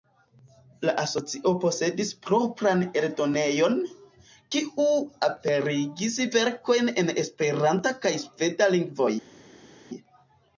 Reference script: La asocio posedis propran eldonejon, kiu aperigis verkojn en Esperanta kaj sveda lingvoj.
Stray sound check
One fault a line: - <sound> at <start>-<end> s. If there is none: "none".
none